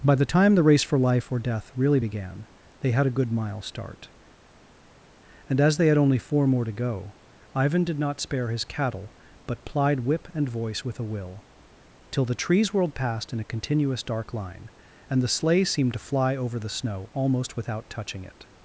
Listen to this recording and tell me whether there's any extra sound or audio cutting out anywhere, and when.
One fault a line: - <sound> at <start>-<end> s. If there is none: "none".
none